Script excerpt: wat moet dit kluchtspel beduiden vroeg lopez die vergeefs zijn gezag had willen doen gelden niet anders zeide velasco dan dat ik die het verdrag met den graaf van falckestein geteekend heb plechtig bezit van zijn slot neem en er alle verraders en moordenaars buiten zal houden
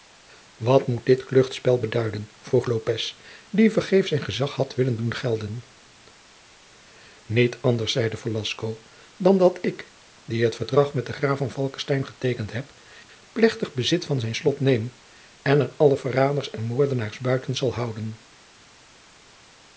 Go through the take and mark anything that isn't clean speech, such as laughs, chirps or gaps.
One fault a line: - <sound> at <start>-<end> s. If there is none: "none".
none